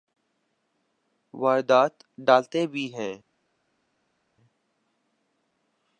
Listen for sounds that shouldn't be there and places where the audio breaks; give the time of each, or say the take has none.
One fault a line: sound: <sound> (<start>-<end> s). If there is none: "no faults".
no faults